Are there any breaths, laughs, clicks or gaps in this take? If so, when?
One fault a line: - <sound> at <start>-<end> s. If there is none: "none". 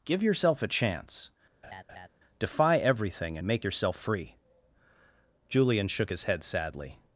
- laugh at 1.6-2.1 s